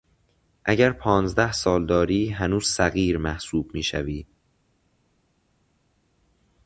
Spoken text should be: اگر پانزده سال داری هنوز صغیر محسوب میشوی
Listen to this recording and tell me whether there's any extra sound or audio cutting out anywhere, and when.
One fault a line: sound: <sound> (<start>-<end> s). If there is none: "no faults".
no faults